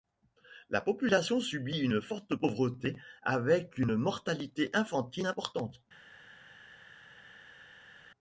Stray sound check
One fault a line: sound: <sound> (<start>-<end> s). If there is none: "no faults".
no faults